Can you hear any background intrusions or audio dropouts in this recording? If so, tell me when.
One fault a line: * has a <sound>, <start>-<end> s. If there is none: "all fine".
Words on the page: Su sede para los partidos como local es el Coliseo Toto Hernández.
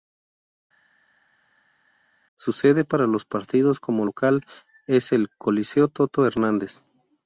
all fine